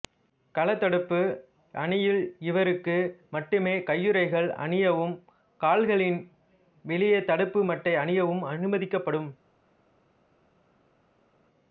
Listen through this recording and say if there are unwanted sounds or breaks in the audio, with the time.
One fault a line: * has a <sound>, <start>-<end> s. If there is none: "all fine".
all fine